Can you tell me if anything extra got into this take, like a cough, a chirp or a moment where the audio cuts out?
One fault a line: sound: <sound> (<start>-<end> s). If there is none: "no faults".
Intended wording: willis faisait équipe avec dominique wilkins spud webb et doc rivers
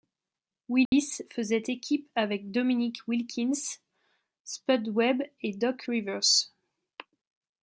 sound: dropout (0.9-0.9 s)